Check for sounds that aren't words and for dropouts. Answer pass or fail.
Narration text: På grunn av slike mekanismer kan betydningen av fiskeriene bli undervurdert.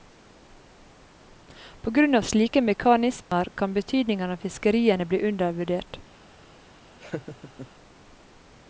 fail